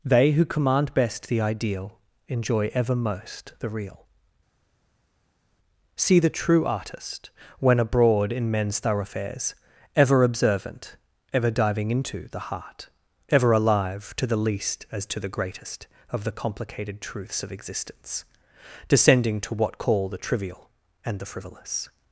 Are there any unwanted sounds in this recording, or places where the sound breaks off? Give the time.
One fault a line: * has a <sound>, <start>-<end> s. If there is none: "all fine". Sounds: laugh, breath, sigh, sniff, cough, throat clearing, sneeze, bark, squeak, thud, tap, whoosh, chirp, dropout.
all fine